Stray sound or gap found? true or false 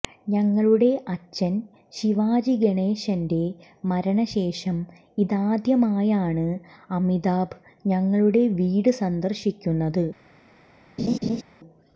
true